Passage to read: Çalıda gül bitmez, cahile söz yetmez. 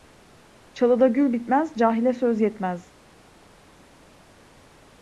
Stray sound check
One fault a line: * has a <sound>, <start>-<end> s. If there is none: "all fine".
all fine